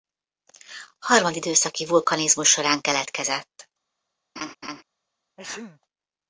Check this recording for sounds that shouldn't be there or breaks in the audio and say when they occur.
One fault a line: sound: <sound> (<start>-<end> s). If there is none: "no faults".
sound: laugh (4.4-4.8 s)
sound: sneeze (5.4-5.8 s)